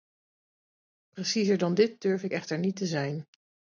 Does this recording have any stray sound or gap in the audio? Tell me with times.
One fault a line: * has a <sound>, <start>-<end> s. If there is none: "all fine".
all fine